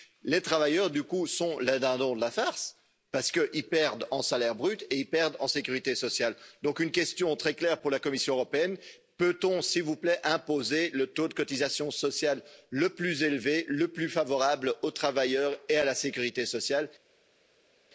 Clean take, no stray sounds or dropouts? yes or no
yes